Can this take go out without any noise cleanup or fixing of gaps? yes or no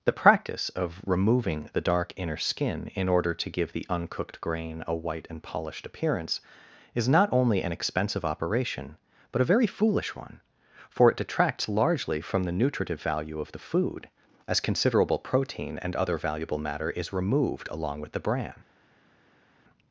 yes